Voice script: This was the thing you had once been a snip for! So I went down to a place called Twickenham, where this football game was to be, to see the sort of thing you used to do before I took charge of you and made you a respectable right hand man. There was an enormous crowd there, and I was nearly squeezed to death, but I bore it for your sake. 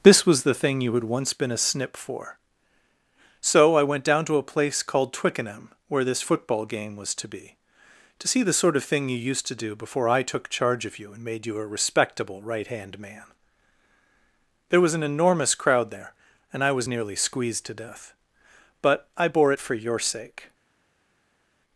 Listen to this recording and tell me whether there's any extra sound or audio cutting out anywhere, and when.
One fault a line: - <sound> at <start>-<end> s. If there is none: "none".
none